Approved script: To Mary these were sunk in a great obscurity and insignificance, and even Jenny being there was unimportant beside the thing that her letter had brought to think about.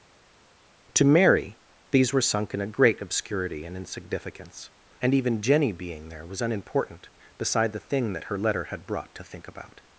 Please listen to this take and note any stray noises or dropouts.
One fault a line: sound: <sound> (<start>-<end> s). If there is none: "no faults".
no faults